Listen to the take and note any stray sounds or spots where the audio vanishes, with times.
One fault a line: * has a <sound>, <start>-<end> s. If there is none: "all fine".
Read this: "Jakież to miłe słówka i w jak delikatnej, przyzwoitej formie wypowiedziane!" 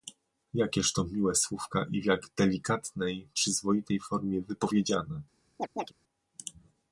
* has a chirp, 5.6-5.9 s